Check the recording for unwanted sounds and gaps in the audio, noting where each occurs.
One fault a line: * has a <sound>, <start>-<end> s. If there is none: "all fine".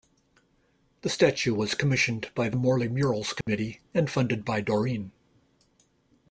* has a dropout, 3.4-3.5 s